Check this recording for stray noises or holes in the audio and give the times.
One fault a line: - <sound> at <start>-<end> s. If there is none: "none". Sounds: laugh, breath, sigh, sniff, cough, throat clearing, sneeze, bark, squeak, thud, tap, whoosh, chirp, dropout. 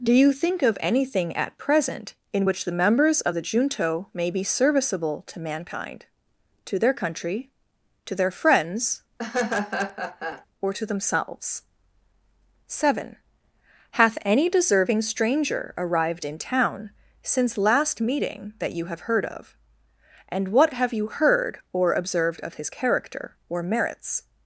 - laugh at 9.2-10.5 s